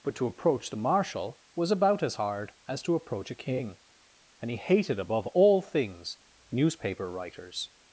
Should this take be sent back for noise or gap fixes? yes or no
no